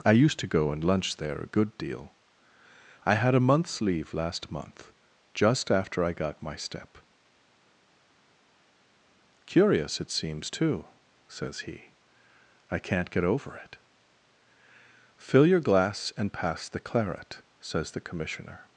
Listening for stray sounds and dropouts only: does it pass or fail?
pass